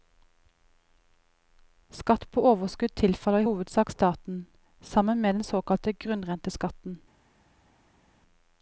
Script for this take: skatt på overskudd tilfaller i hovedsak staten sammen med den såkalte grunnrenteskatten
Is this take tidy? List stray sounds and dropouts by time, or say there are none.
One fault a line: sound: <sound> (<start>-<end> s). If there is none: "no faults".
no faults